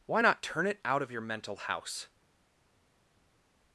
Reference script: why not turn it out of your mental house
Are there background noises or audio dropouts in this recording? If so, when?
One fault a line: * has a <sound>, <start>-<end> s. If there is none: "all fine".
all fine